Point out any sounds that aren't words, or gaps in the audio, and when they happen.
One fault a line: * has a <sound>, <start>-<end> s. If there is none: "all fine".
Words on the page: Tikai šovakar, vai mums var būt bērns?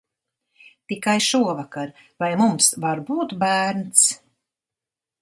all fine